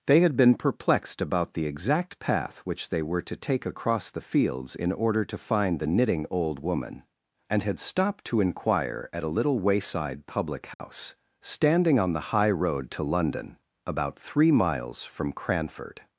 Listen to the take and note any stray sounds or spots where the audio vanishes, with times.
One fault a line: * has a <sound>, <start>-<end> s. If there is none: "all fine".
* has a dropout, 10.7-10.8 s